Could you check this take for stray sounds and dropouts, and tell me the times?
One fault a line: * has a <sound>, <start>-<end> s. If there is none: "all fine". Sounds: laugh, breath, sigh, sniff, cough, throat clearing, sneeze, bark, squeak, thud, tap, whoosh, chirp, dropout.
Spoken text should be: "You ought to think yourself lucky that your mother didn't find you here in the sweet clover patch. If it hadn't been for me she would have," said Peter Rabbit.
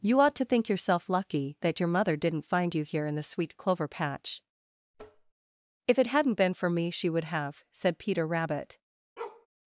* has a tap, 4.9-5.3 s
* has a bark, 9.2-9.5 s